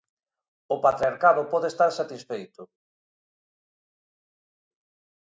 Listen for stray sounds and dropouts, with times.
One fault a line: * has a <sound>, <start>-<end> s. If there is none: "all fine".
all fine